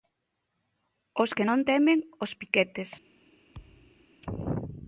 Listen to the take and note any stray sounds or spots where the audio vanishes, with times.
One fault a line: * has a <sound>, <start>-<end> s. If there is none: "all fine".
* has a thud, 3.5-4.1 s